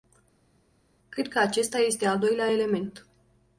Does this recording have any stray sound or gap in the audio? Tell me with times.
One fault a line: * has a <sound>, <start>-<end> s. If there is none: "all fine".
all fine